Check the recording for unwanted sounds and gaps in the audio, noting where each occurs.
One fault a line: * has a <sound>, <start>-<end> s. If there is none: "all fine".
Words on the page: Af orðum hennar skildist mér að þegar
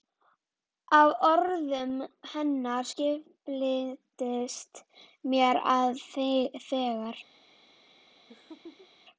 * has a laugh, 8.3-8.9 s